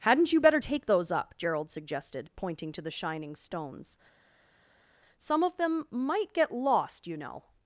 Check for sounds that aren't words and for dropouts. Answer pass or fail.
pass